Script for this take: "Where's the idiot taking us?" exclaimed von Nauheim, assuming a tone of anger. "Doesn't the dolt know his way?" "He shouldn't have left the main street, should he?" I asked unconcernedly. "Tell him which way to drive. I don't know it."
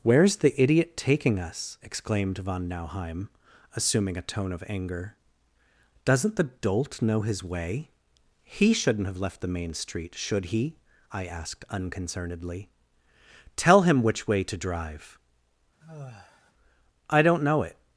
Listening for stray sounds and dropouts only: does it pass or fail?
fail